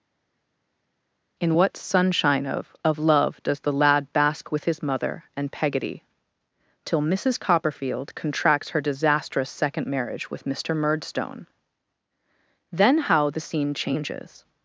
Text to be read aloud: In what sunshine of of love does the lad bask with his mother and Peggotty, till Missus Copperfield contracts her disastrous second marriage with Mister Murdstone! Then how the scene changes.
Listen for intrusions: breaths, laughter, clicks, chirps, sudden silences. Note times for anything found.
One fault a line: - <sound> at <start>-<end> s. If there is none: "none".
none